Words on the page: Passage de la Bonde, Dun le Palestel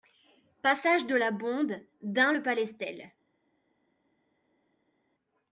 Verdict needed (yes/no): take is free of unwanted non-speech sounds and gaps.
yes